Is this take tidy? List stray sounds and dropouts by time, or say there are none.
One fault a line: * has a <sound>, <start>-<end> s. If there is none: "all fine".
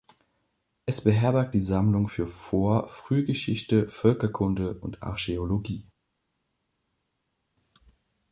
all fine